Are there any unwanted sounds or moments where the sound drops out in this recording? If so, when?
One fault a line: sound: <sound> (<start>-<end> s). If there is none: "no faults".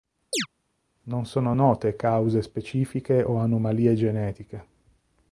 sound: chirp (0.3-0.5 s)